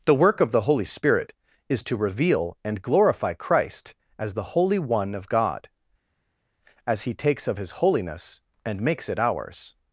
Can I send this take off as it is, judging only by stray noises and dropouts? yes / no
yes